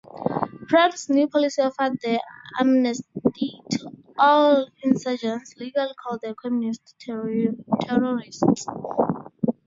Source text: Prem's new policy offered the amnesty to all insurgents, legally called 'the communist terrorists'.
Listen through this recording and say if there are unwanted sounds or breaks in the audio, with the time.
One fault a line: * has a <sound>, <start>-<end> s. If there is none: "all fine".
all fine